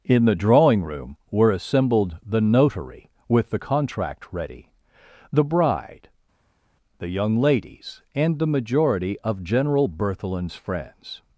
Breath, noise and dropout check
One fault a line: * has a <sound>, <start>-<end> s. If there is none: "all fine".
all fine